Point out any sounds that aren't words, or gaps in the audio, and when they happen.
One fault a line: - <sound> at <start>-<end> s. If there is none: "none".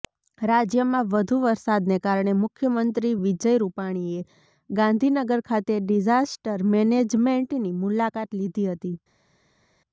none